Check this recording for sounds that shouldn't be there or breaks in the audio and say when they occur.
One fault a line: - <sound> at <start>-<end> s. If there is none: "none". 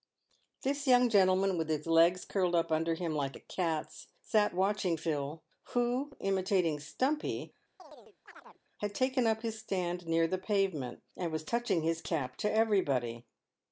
- chirp at 7.8-8.6 s